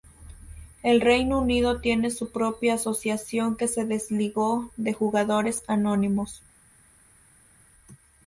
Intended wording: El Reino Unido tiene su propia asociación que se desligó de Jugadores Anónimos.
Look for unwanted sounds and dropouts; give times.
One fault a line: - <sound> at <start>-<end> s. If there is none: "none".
none